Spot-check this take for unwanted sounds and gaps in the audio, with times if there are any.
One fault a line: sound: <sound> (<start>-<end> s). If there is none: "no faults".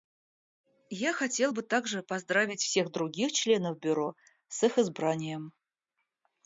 no faults